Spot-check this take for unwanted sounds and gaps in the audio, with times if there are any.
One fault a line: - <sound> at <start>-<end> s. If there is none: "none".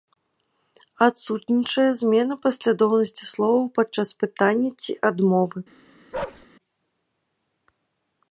- bark at 6.1-6.5 s